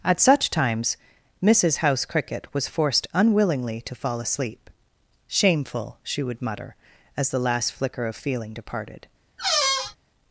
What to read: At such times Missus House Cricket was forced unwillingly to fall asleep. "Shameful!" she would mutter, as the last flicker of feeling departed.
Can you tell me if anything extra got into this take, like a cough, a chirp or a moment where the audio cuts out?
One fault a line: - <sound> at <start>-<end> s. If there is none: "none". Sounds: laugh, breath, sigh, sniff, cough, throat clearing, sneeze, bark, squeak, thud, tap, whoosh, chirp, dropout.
- squeak at 9.4-10.0 s